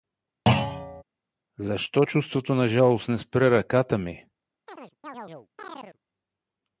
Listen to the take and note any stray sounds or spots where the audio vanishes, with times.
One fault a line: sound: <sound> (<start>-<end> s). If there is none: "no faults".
sound: thud (0.5-1.0 s)
sound: chirp (4.7-6.0 s)